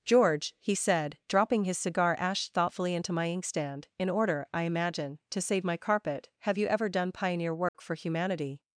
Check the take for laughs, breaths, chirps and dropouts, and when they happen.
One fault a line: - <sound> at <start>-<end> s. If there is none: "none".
- dropout at 7.7-7.7 s